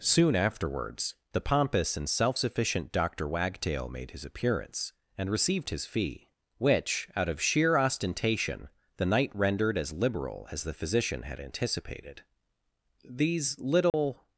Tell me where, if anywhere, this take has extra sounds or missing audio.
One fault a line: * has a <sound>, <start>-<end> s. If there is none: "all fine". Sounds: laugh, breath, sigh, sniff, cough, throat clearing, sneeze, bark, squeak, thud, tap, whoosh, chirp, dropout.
* has a dropout, 13.9-13.9 s